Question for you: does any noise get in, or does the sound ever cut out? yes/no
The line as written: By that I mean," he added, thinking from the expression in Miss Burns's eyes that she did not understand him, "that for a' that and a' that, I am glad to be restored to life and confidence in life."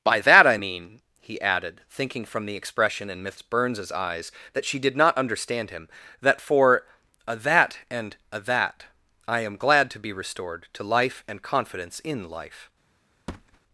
yes